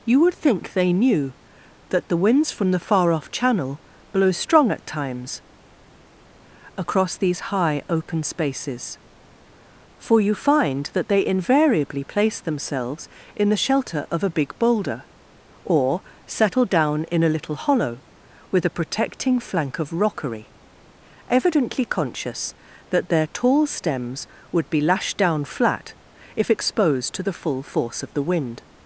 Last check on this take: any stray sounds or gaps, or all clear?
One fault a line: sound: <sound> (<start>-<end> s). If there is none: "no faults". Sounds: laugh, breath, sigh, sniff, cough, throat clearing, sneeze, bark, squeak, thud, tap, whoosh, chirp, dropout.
no faults